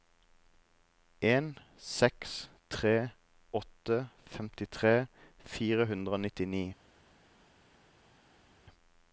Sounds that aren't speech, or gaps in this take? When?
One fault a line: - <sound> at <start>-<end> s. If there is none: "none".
none